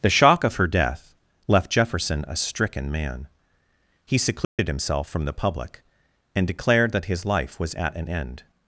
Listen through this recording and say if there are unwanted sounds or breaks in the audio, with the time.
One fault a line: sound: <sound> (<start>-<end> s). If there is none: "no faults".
sound: dropout (4.4-4.6 s)